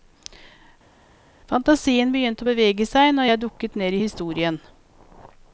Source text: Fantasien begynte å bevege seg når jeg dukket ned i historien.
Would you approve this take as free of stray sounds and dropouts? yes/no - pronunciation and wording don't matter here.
yes